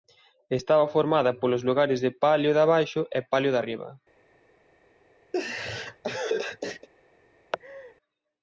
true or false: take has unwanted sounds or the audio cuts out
true